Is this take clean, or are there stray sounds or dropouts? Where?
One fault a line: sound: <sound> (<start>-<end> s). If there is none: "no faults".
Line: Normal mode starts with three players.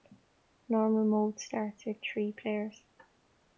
no faults